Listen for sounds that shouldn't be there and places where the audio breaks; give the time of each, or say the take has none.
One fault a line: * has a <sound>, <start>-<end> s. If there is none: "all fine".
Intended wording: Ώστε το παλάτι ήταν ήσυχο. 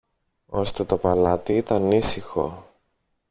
all fine